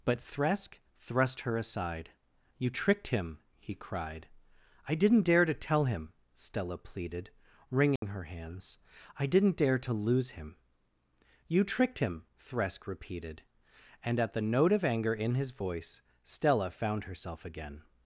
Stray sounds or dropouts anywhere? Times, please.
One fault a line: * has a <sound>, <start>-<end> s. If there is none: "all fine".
* has a dropout, 8.0-8.0 s